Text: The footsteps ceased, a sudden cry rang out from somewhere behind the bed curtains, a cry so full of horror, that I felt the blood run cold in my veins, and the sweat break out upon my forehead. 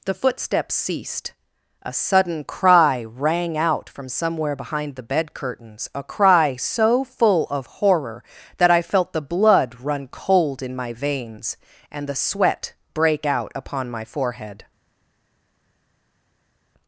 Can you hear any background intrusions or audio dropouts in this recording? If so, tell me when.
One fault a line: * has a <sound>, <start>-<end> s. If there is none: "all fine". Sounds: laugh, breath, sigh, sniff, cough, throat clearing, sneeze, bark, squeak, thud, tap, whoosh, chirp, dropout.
all fine